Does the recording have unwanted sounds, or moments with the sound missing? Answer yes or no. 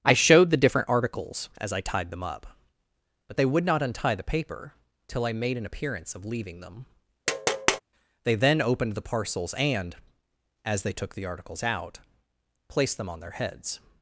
yes